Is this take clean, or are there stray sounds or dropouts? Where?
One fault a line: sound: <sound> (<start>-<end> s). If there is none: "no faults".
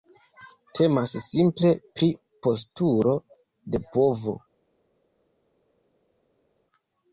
no faults